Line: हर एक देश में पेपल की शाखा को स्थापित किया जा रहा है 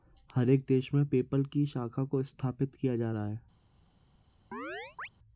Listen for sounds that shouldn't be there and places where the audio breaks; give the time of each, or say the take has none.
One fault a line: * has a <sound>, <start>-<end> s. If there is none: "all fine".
* has a chirp, 4.5-5.1 s